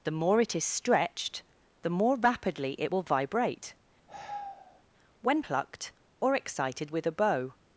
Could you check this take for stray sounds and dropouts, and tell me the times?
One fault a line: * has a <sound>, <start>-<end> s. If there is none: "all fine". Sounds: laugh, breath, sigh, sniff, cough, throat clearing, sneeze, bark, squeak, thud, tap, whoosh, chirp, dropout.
* has a sigh, 4.1-4.8 s